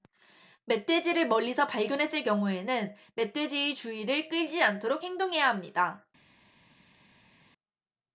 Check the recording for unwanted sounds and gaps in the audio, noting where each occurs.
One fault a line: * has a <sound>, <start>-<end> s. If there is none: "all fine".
all fine